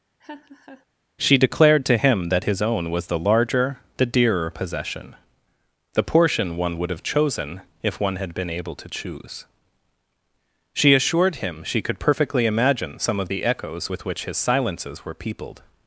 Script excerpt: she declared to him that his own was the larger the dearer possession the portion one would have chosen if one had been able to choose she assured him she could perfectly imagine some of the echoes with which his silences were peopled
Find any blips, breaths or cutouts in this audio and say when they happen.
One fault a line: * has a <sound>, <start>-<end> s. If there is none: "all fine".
* has a laugh, 0.2-0.9 s